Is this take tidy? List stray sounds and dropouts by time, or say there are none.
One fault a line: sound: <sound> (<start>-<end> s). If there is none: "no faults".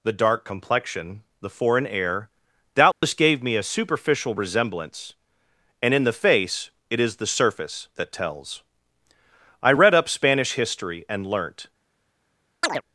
sound: dropout (2.9-3.0 s)
sound: chirp (12.6-12.8 s)